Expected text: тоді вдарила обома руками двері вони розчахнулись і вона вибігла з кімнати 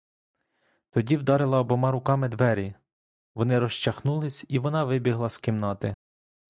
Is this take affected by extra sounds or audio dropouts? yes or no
no